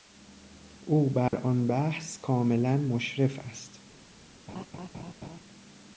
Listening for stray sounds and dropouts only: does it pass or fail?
fail